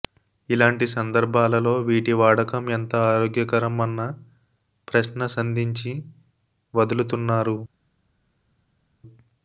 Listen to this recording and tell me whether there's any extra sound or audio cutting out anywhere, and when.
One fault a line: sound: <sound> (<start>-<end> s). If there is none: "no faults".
no faults